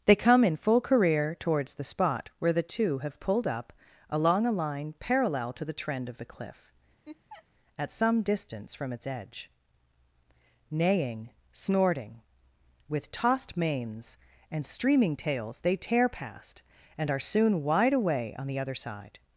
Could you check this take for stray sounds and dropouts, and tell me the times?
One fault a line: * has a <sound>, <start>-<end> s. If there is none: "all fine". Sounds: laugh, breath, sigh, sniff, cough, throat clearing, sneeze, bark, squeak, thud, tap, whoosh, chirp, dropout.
* has a laugh, 7.1-7.5 s